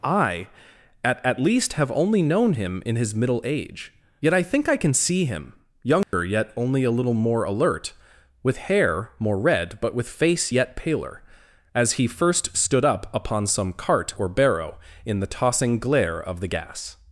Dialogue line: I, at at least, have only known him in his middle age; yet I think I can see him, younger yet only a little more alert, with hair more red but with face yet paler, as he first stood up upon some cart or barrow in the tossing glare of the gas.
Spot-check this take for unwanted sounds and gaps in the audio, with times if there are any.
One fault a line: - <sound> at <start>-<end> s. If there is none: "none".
- dropout at 6.0-6.1 s